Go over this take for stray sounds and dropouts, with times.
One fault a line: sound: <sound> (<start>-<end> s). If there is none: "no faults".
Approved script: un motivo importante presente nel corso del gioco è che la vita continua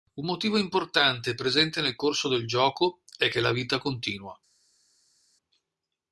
no faults